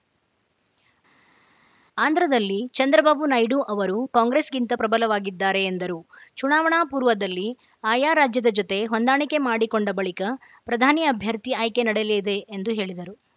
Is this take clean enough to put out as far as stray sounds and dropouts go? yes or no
yes